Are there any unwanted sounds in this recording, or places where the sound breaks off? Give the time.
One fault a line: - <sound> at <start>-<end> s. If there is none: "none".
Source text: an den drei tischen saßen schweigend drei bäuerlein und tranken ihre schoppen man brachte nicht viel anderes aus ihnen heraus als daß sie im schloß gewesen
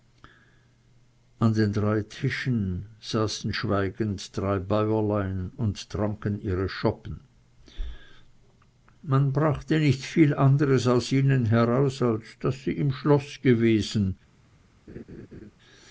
- laugh at 14.9-15.5 s